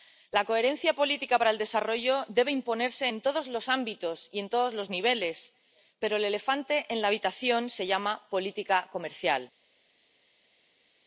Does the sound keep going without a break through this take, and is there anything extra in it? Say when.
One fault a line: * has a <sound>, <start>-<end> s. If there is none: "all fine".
all fine